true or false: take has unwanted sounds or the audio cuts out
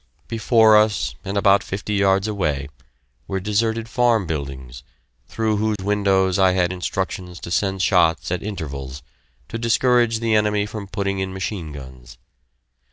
true